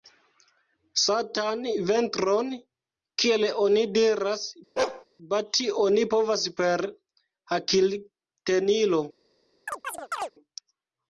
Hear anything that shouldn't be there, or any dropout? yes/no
yes